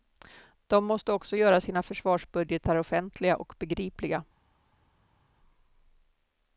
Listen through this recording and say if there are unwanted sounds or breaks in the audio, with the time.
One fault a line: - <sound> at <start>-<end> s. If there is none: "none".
none